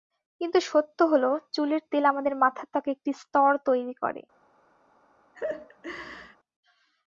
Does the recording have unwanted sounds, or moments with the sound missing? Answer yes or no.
yes